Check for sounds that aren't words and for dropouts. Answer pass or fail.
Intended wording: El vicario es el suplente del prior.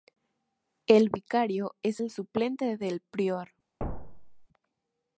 fail